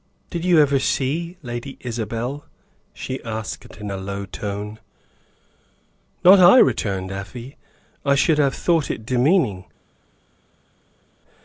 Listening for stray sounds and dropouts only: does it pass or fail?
pass